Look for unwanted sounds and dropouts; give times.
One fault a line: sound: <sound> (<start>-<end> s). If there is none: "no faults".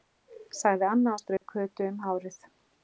sound: dropout (1.4-1.4 s)